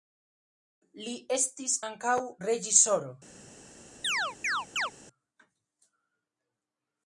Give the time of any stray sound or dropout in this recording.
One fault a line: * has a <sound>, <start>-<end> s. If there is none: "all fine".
* has a chirp, 4.0-4.9 s